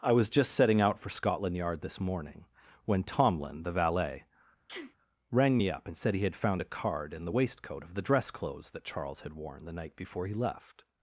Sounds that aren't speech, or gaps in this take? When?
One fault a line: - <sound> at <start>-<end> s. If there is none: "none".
- sneeze at 4.7-5.0 s